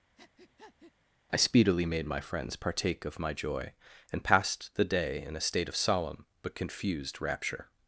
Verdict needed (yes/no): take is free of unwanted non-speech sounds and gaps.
no